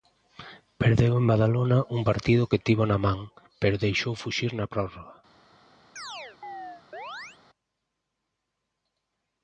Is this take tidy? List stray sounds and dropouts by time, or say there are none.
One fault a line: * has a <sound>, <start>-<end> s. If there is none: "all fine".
* has a chirp, 6.0-7.4 s